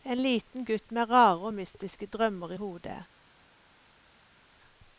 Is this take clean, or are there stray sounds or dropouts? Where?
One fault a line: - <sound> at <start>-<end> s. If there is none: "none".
none